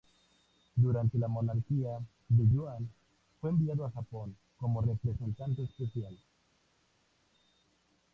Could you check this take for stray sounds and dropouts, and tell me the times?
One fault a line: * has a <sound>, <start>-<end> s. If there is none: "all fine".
all fine